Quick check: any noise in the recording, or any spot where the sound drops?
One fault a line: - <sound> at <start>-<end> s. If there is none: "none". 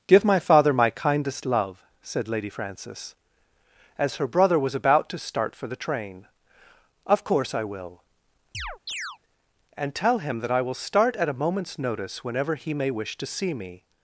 - chirp at 8.5-9.2 s